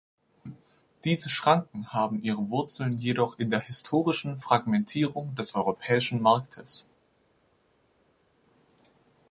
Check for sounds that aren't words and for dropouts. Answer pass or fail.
pass